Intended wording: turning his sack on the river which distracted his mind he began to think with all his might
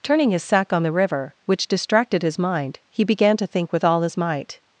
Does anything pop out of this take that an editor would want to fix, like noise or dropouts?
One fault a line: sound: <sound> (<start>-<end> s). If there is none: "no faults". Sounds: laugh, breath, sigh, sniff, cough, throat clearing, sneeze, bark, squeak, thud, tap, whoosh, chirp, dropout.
no faults